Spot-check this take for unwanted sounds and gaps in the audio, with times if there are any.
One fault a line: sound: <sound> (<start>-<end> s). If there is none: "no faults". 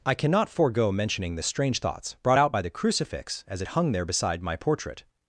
no faults